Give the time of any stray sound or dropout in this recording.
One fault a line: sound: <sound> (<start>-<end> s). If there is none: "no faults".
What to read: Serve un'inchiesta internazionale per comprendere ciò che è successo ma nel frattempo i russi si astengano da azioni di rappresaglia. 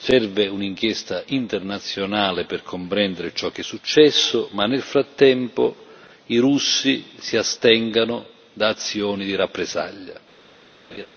sound: laugh (10.9-11.1 s)